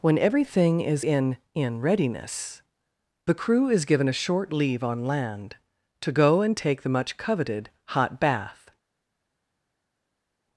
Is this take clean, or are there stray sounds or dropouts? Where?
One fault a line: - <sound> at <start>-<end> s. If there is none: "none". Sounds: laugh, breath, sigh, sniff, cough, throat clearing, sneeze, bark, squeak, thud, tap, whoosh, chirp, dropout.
none